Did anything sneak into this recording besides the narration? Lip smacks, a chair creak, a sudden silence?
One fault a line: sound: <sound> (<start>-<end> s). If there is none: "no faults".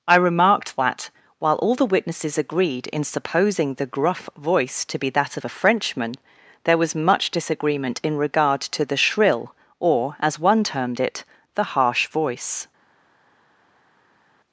no faults